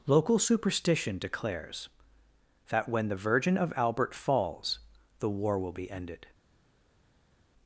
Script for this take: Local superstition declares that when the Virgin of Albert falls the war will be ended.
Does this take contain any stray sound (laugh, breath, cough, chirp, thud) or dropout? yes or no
no